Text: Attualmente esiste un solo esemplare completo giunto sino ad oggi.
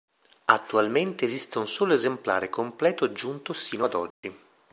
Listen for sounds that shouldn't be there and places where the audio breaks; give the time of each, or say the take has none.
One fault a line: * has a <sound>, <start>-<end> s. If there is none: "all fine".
* has a dropout, 4.1-4.2 s